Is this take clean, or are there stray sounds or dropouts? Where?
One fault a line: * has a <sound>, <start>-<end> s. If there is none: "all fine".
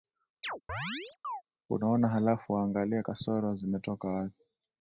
* has a chirp, 0.4-1.4 s